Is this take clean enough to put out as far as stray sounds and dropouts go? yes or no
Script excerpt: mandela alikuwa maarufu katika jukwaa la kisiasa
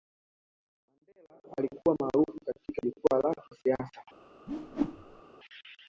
no